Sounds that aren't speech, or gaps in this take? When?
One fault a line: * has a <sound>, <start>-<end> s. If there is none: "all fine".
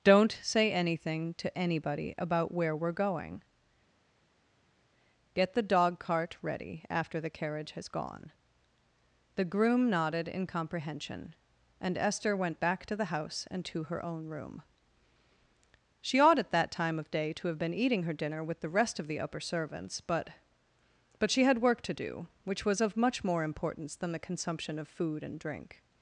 all fine